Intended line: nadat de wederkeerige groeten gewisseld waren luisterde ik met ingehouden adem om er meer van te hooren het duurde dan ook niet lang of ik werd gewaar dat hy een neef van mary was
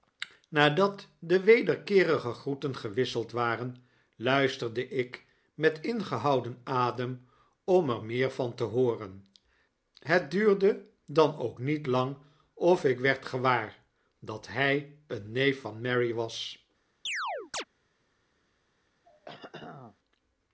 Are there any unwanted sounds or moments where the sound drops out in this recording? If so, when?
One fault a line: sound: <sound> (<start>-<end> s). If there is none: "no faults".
sound: chirp (17.1-17.6 s)
sound: throat clearing (19.0-20.0 s)